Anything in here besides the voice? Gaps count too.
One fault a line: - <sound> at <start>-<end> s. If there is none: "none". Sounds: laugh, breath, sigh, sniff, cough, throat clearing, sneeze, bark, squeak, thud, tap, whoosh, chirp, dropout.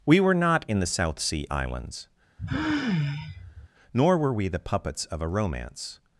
- sigh at 2.4-3.7 s